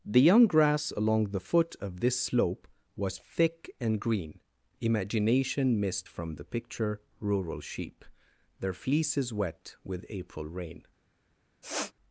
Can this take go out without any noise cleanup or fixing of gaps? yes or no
no